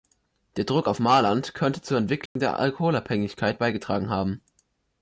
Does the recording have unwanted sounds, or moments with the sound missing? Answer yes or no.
yes